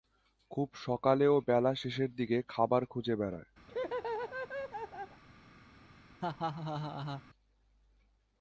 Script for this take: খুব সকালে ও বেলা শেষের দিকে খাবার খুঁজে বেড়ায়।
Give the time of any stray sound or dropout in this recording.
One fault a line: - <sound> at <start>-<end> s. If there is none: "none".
- laugh at 3.7-5.2 s
- laugh at 6.2-7.2 s